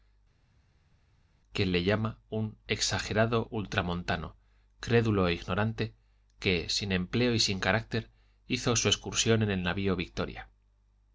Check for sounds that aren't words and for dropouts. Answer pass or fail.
pass